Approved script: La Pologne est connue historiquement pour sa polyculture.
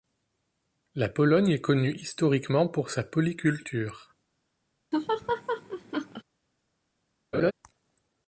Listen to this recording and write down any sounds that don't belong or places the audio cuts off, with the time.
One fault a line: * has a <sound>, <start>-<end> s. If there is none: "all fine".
* has a laugh, 4.9-6.2 s
* has a laugh, 7.3-7.5 s